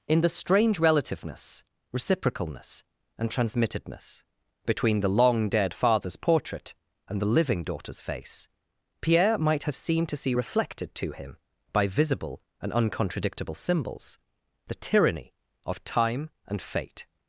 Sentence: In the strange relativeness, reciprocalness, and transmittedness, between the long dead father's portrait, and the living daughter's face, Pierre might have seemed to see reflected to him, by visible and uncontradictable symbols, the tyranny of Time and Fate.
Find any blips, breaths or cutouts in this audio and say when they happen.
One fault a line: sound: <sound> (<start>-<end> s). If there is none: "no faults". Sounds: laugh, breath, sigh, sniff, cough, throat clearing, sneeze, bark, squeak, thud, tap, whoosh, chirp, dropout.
no faults